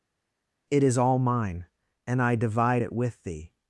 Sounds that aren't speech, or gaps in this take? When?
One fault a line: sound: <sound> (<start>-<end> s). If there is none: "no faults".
no faults